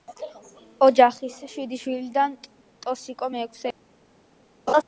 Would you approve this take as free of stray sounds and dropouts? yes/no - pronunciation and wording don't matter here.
no